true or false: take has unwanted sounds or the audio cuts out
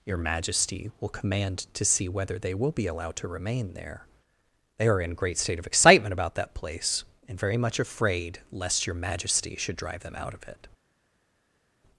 false